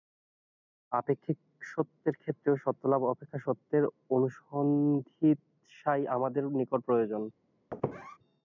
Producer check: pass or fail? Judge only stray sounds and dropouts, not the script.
fail